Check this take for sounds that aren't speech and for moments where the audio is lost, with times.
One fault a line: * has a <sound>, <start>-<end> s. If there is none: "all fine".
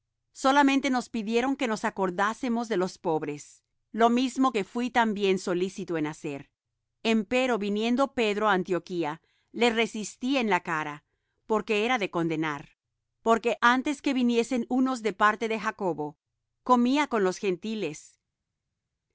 all fine